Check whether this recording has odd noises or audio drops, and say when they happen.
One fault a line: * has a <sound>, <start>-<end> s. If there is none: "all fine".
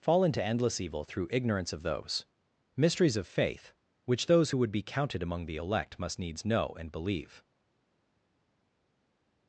all fine